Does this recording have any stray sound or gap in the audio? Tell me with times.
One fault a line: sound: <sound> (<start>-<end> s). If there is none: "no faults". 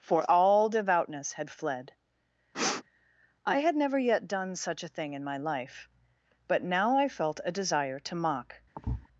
sound: sniff (2.5-2.8 s)
sound: thud (8.8-9.1 s)